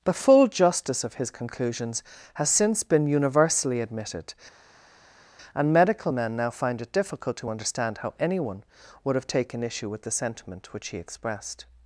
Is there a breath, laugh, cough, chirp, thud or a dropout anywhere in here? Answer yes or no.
no